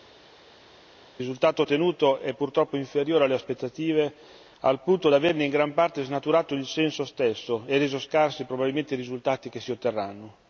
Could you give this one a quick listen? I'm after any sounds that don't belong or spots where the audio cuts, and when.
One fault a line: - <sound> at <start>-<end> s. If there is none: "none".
none